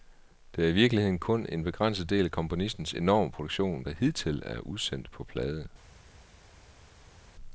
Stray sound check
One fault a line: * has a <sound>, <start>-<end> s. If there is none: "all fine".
all fine